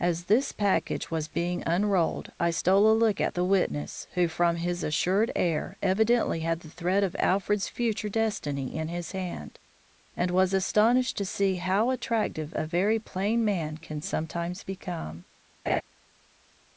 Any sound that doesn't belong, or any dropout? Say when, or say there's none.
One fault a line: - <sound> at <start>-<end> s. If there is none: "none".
- laugh at 15.7-15.8 s